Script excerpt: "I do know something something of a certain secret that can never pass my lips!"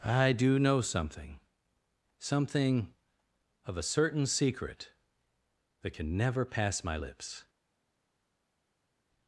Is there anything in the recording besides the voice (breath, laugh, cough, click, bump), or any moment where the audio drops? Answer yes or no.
no